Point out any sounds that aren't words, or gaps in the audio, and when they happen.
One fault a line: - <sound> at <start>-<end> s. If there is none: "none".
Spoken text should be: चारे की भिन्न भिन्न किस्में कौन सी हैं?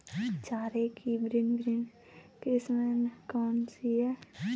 none